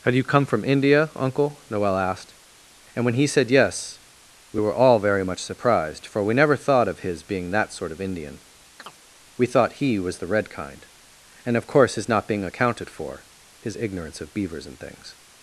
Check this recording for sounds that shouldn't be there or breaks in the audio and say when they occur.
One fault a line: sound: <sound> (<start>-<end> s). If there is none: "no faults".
sound: chirp (8.8-9.0 s)